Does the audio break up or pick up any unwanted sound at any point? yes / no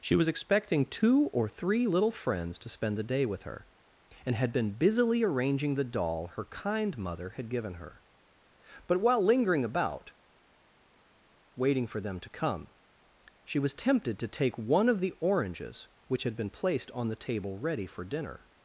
no